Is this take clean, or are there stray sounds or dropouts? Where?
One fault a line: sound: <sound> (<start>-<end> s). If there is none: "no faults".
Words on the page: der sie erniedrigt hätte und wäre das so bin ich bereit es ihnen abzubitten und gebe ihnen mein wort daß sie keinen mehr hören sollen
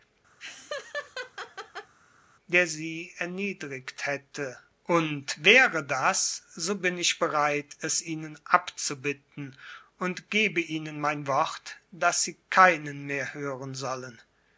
sound: laugh (0.4-1.9 s)